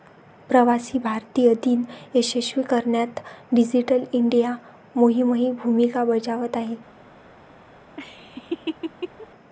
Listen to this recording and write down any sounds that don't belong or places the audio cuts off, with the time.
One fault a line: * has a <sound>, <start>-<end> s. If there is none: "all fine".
* has a laugh, 8.0-9.3 s